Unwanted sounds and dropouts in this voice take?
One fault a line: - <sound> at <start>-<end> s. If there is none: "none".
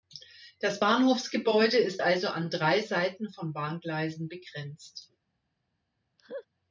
- laugh at 6.2-6.5 s